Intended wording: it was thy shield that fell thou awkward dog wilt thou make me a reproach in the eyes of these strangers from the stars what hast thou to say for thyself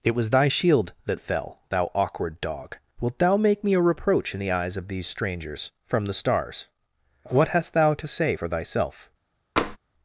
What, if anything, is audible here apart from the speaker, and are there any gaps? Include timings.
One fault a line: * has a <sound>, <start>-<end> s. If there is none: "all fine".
* has a tap, 9.6-9.8 s